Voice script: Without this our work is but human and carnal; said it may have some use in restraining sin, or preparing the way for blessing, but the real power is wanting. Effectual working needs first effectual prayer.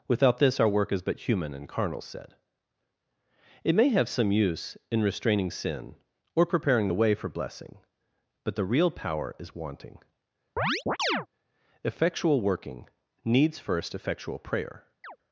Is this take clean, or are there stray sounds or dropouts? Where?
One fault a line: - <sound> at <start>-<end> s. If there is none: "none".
- chirp at 10.6-11.3 s
- chirp at 15.0-15.2 s